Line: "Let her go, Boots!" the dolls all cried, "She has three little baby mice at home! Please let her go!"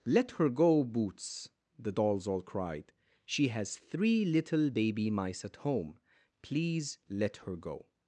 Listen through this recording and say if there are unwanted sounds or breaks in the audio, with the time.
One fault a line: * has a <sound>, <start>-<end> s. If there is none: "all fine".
all fine